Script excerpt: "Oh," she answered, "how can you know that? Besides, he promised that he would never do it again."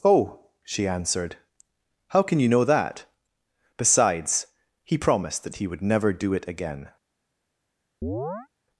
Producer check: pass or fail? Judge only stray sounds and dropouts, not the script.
fail